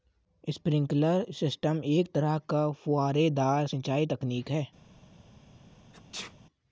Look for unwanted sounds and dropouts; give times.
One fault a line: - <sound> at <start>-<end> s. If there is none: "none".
- sneeze at 5.9-6.3 s